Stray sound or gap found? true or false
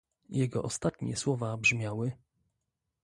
false